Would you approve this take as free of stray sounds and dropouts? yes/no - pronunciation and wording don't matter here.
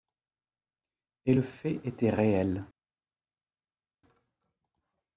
yes